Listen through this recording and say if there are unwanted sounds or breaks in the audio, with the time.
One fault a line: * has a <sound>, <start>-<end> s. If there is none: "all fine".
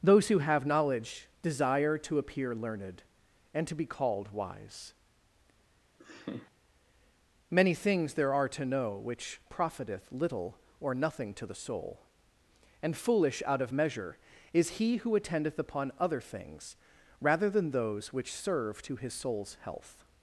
* has a laugh, 6.0-6.5 s